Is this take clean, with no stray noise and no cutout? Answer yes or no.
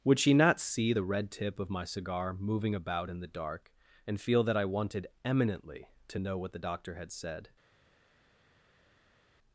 yes